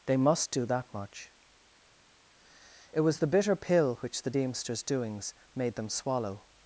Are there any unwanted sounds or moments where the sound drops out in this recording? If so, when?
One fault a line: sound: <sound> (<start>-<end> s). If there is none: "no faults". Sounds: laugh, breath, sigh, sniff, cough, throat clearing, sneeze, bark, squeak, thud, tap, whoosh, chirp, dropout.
no faults